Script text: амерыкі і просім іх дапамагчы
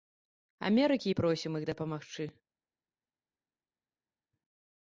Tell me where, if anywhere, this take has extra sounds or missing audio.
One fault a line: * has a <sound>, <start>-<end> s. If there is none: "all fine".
all fine